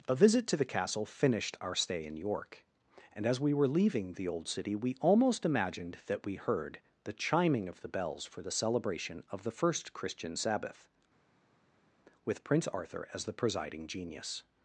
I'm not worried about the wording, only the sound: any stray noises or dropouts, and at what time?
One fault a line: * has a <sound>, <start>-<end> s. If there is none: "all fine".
all fine